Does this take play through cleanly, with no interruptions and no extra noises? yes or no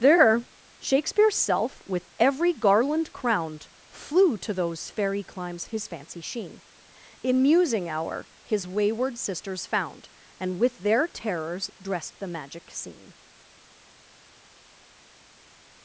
yes